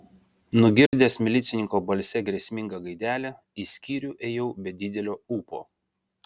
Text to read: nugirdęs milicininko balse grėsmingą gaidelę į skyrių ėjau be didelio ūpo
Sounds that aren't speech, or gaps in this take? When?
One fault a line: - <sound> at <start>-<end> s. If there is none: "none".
- dropout at 0.9-0.9 s